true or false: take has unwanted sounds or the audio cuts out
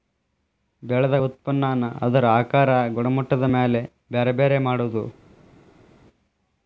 false